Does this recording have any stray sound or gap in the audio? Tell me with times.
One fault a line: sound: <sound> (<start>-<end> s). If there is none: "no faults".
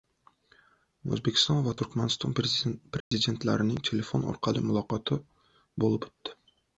sound: dropout (3.0-3.1 s)